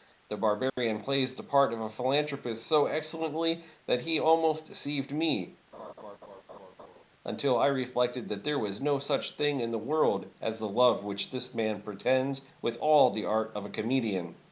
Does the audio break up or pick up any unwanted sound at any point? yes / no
yes